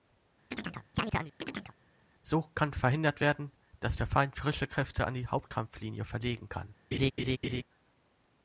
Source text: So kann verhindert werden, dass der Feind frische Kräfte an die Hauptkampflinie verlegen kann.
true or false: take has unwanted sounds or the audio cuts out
true